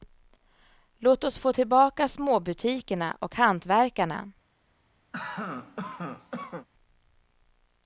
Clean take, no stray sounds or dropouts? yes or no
no